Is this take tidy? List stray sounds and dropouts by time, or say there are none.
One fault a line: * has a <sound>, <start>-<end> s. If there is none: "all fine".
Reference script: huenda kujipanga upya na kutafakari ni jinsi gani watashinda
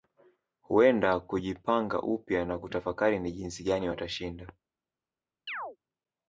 * has a chirp, 5.5-5.8 s